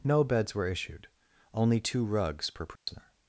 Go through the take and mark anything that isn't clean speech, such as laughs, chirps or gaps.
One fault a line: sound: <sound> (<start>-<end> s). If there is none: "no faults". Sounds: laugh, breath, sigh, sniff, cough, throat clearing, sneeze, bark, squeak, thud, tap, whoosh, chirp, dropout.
sound: dropout (2.8-2.9 s)